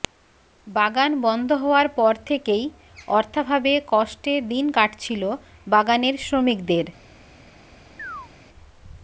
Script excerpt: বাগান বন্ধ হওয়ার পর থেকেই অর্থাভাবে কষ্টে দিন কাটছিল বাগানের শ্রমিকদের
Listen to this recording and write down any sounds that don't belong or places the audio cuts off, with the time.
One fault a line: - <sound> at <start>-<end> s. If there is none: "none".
- chirp at 8.0-8.3 s